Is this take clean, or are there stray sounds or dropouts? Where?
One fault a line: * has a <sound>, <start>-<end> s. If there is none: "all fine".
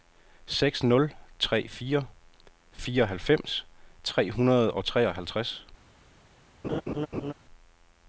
* has a laugh, 6.6-7.3 s